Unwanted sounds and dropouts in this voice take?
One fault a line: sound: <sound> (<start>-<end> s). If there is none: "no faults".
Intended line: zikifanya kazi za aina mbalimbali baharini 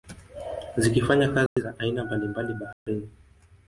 sound: dropout (1.5-1.6 s)
sound: dropout (2.7-2.9 s)